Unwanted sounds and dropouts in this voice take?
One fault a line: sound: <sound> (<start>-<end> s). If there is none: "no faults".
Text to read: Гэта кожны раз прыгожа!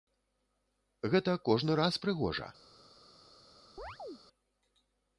sound: chirp (3.8-4.2 s)